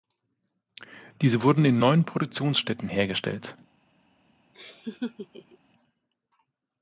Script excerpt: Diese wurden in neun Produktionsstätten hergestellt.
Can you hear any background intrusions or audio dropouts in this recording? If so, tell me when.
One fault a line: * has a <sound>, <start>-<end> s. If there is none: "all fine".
* has a laugh, 4.5-5.6 s